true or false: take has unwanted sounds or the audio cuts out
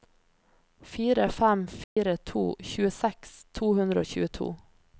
true